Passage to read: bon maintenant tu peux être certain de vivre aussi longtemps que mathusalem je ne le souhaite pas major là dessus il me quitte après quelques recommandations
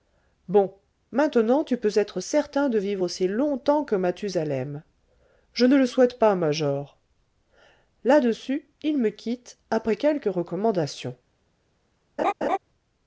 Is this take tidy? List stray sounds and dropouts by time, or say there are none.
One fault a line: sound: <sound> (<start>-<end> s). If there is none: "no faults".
sound: laugh (12.2-12.6 s)